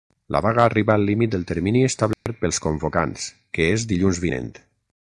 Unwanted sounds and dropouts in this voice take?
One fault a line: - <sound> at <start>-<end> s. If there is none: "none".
- dropout at 2.1-2.3 s